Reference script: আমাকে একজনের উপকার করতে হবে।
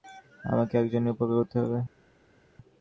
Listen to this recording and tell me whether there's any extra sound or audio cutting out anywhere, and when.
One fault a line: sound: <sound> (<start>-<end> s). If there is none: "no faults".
no faults